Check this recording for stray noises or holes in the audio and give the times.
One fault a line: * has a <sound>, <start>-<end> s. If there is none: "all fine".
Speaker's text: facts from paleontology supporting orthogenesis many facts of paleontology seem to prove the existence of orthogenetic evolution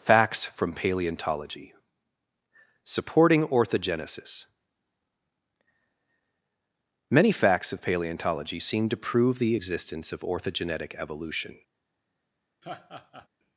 * has a laugh, 12.6-13.3 s